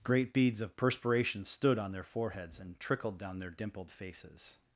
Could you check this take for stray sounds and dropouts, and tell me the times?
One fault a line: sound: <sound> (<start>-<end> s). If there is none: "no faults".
no faults